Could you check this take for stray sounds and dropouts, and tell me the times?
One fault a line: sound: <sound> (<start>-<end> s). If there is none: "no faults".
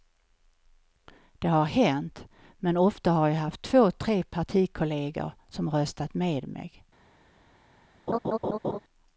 sound: laugh (8.1-8.8 s)